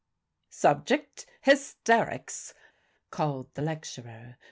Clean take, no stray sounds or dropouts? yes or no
yes